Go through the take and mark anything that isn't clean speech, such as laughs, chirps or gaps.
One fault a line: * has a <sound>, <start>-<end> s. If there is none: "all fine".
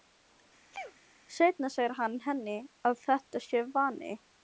* has a sneeze, 0.7-1.0 s